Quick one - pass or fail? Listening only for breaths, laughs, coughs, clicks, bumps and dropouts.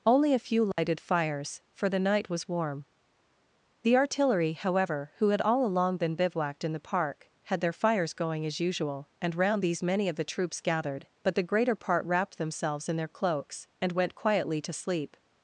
fail